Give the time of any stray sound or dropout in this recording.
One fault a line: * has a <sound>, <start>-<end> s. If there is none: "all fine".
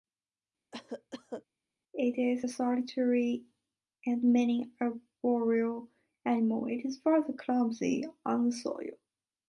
* has a cough, 0.7-1.5 s